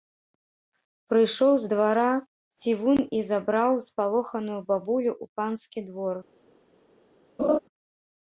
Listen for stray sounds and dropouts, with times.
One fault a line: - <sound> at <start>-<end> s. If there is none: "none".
- laugh at 7.4-7.6 s